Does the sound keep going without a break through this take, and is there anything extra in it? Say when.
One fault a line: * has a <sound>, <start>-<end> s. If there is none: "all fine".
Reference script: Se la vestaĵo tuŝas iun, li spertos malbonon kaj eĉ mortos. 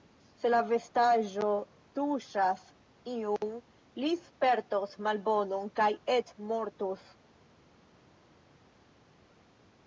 all fine